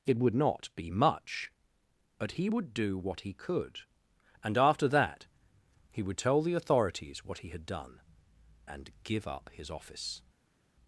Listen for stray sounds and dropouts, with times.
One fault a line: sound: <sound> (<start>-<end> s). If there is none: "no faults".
no faults